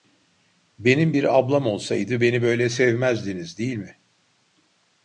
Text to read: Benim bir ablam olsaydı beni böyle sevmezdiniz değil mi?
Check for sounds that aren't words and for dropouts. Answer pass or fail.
pass